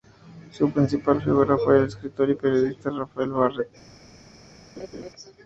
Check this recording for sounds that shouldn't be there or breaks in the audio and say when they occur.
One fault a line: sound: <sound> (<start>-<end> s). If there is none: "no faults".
sound: laugh (4.8-5.1 s)